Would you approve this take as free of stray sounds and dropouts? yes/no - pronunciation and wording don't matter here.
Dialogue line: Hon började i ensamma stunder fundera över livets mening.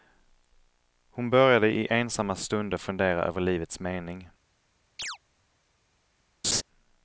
no